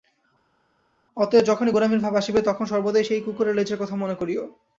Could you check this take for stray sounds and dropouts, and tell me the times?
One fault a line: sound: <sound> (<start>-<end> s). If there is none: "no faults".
no faults